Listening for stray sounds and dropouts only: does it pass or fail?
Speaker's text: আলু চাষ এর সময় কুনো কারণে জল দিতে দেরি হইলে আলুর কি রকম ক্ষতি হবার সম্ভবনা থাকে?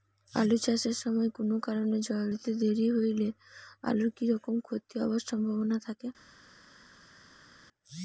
pass